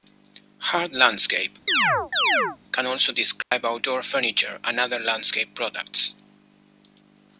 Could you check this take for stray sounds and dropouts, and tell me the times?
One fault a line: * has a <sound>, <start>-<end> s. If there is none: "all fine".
* has a chirp, 1.7-2.6 s
* has a dropout, 3.4-3.5 s